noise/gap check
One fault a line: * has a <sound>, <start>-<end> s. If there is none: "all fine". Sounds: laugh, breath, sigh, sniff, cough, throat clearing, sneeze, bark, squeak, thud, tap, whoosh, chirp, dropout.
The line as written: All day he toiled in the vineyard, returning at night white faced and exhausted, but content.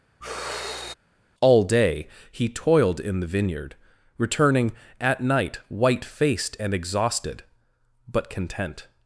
* has a sigh, 0.2-0.9 s